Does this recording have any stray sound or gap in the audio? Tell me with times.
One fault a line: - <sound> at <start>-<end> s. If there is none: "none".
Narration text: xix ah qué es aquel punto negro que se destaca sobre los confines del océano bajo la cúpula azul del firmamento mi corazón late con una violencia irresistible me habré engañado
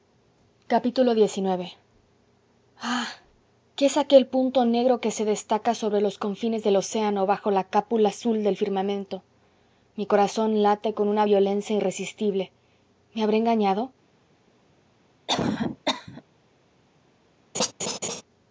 - cough at 15.3-16.2 s
- laugh at 17.5-18.2 s